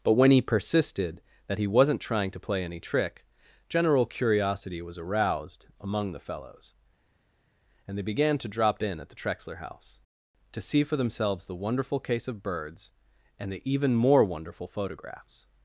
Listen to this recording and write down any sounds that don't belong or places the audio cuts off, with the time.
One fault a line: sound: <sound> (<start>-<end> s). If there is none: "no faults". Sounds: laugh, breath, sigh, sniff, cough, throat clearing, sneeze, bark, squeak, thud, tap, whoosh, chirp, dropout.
no faults